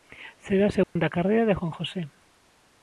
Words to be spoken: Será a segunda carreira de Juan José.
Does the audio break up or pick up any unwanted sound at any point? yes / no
yes